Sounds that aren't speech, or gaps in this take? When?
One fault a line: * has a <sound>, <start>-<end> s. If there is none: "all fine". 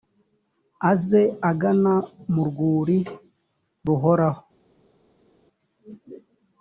all fine